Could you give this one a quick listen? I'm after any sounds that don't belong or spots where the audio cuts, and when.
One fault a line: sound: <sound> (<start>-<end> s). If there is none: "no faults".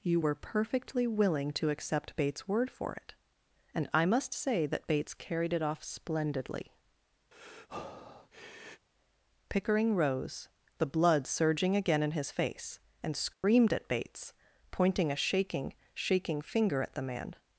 sound: breath (7.3-8.9 s)
sound: dropout (13.3-13.4 s)